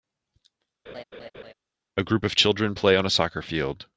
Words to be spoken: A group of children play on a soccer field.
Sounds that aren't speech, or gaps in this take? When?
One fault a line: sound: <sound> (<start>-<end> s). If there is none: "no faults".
sound: laugh (0.9-1.5 s)